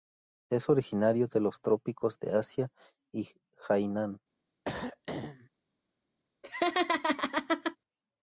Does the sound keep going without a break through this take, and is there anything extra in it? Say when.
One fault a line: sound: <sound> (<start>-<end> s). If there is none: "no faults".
sound: throat clearing (4.6-5.5 s)
sound: laugh (6.4-7.8 s)